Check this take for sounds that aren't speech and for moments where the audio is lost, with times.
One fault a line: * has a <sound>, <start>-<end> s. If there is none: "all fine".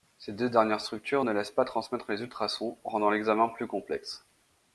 all fine